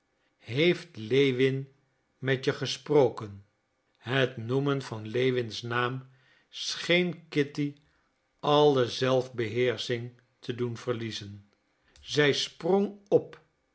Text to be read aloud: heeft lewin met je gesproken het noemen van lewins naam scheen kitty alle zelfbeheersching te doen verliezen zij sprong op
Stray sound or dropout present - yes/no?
no